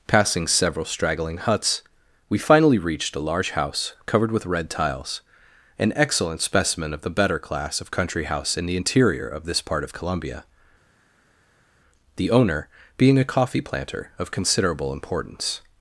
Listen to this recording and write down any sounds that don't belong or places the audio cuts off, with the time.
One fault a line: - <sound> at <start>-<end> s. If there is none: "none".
none